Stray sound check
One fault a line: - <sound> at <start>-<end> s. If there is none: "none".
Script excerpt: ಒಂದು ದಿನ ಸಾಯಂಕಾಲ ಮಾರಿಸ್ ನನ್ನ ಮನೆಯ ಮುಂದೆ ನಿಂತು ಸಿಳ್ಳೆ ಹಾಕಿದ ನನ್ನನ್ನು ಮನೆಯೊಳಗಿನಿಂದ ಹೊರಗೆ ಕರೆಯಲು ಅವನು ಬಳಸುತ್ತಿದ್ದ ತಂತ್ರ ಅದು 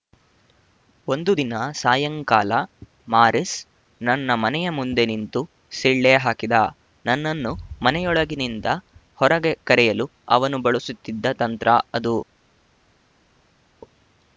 none